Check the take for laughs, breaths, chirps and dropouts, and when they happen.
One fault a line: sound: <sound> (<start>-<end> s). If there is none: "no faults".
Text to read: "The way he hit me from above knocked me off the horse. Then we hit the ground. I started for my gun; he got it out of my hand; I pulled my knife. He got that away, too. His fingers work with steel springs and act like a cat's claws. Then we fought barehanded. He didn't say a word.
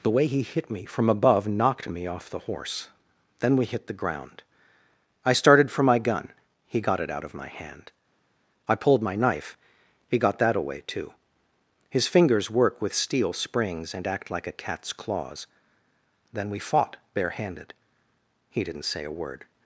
no faults